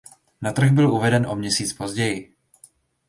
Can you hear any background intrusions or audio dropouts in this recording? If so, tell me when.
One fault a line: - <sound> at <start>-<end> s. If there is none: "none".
none